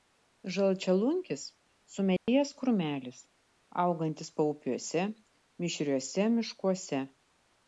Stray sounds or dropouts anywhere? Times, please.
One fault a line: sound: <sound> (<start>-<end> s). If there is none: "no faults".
sound: dropout (2.2-2.3 s)